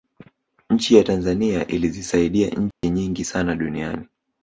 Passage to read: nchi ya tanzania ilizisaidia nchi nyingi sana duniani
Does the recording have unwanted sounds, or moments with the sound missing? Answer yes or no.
yes